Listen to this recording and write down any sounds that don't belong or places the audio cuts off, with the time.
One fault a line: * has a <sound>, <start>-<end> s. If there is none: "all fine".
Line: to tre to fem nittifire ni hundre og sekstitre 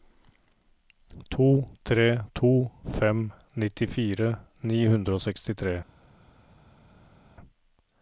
all fine